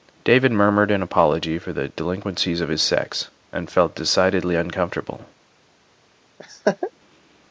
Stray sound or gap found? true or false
true